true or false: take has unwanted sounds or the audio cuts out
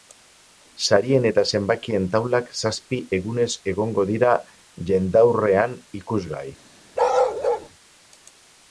true